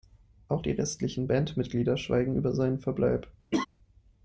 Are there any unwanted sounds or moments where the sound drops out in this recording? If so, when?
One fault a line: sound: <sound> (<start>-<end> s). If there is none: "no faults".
sound: laugh (3.5-3.7 s)